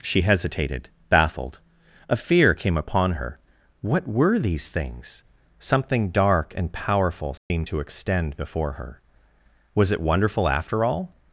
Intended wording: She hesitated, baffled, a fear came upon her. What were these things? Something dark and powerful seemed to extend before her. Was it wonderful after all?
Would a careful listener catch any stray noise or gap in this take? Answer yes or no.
yes